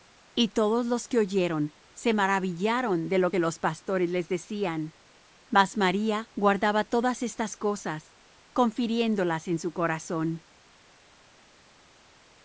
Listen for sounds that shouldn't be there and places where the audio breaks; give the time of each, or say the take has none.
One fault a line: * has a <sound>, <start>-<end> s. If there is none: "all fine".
all fine